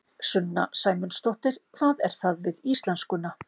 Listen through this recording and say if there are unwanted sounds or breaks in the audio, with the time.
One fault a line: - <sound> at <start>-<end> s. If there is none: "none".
none